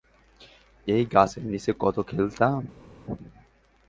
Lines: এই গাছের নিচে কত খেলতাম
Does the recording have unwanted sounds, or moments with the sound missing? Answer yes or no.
no